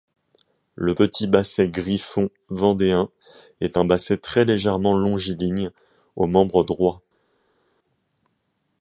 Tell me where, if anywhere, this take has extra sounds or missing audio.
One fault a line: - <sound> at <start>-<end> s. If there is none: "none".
none